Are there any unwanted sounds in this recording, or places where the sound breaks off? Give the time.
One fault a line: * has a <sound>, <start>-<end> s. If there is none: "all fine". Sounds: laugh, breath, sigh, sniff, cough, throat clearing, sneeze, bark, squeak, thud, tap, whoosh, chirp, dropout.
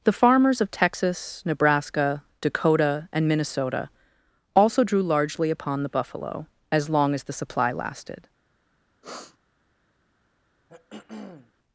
* has a sniff, 9.0-9.4 s
* has a throat clearing, 10.7-11.5 s